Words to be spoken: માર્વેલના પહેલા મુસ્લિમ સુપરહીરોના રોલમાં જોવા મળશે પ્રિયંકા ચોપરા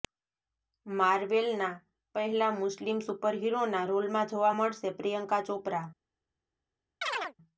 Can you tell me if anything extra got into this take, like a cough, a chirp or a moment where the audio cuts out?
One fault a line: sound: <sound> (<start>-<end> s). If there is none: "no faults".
sound: chirp (7.0-7.3 s)